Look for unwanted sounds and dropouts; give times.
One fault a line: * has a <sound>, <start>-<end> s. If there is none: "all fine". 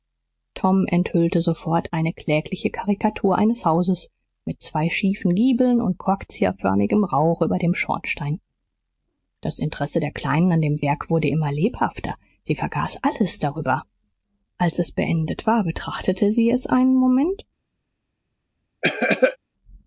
* has a cough, 18.8-19.4 s